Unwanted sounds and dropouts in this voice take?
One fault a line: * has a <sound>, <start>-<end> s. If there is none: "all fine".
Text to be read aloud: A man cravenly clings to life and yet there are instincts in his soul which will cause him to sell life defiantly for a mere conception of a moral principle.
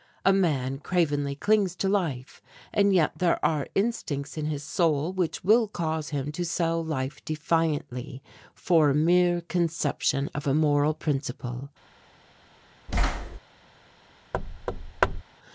* has a thud, 12.9-13.4 s
* has a thud, 14.3-15.2 s